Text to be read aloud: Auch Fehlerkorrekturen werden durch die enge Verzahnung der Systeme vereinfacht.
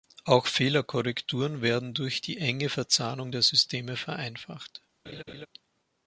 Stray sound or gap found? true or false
true